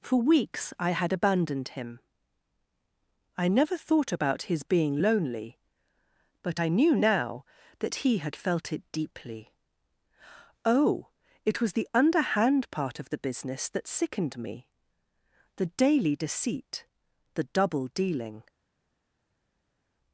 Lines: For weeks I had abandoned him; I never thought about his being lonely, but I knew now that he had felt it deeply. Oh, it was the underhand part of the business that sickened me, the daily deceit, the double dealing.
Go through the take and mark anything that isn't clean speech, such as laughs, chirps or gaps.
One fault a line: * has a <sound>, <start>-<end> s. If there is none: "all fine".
all fine